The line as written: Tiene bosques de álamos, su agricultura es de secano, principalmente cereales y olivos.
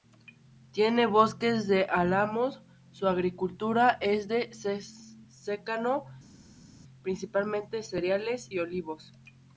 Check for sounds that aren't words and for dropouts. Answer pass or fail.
pass